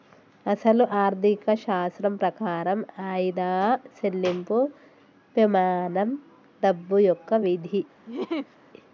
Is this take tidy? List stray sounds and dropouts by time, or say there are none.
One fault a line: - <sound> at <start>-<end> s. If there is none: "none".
- laugh at 8.1-8.6 s